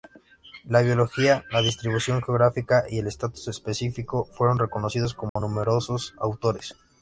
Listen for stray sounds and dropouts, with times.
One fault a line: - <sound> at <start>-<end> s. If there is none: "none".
- dropout at 5.3-5.4 s